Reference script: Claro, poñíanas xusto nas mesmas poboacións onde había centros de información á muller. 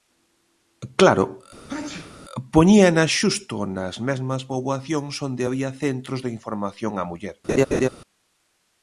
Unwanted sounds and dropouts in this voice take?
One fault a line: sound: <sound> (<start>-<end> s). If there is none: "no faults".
sound: sneeze (1.7-2.2 s)
sound: laugh (7.5-7.9 s)